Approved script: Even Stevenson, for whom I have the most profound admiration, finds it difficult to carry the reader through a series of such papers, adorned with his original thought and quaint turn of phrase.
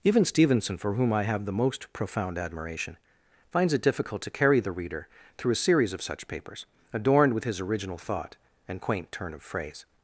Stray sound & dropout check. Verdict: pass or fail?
pass